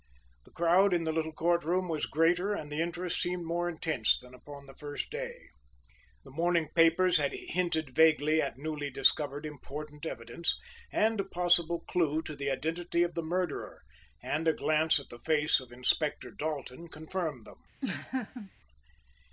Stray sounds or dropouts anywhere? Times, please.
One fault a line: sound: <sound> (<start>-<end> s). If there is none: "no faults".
sound: laugh (17.8-18.5 s)